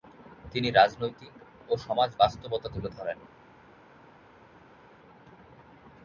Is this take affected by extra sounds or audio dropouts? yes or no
no